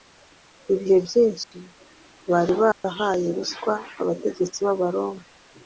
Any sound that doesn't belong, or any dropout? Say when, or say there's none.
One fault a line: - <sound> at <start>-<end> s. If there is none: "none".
- dropout at 1.4-1.5 s
- dropout at 2.7-2.8 s